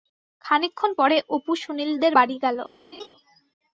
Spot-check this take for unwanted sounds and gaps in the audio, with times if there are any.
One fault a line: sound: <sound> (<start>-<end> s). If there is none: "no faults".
sound: laugh (2.9-3.1 s)